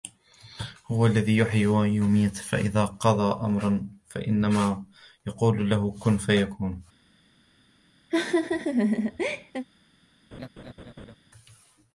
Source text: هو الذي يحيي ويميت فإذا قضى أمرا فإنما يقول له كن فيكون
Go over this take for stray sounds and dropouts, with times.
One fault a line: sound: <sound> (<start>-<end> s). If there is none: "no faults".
sound: laugh (8.1-9.7 s)
sound: laugh (10.3-11.2 s)